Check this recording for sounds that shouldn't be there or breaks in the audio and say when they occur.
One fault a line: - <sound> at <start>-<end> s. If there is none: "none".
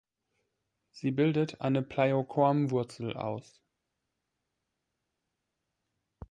none